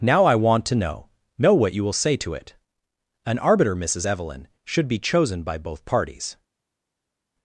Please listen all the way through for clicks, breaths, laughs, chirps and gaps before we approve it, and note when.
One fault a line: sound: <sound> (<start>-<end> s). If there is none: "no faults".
no faults